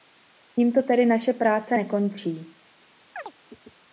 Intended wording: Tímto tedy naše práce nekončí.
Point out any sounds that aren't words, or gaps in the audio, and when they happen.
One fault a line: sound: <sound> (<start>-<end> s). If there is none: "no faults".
sound: chirp (3.2-3.3 s)